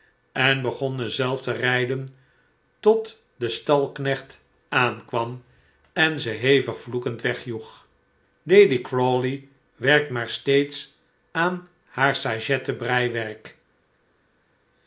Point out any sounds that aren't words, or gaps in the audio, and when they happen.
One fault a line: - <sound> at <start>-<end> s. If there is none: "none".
none